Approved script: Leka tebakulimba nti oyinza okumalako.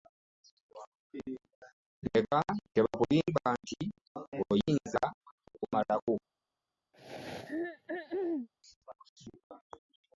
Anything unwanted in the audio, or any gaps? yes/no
yes